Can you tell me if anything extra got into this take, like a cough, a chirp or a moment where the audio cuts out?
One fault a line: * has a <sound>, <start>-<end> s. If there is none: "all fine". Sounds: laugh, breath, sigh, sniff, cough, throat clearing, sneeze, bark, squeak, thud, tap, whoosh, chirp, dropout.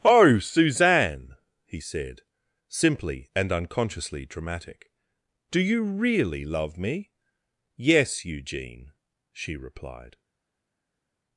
all fine